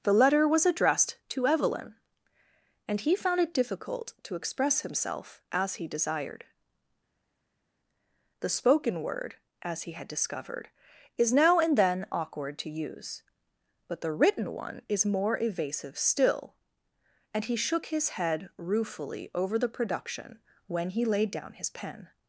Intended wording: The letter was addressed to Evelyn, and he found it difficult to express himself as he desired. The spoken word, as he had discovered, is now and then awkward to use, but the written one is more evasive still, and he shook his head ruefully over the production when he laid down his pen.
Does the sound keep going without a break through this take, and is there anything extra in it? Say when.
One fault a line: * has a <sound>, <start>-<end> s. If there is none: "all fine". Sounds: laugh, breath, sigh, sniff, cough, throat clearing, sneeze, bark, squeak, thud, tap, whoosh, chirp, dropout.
all fine